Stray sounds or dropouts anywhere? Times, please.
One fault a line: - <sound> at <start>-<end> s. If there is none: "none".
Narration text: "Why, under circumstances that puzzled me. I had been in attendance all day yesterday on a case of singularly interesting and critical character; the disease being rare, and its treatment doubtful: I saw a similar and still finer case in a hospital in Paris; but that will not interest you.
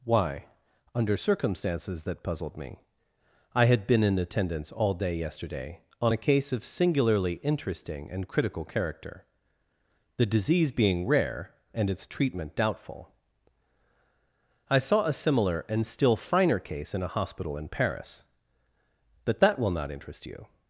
none